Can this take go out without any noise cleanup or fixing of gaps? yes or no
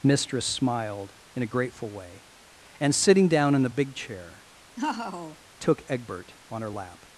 no